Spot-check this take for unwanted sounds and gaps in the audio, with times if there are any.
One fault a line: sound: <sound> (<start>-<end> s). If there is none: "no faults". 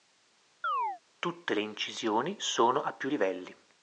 sound: chirp (0.6-1.0 s)